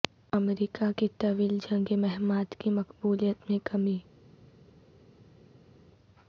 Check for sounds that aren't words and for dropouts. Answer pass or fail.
pass